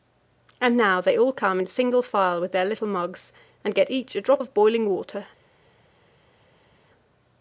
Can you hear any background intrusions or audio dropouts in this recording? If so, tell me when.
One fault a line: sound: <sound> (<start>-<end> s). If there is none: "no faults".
no faults